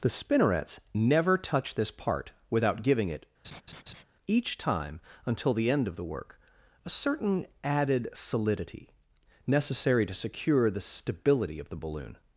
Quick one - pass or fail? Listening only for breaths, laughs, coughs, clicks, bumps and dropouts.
fail